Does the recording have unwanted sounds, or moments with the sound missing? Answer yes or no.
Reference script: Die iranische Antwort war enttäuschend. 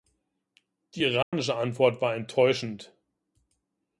yes